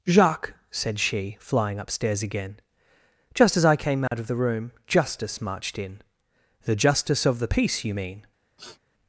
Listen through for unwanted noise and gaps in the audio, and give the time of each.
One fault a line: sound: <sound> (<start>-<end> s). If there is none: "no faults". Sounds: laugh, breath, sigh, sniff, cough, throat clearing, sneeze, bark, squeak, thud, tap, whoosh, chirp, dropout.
sound: dropout (4.1-4.1 s)
sound: sniff (8.6-8.8 s)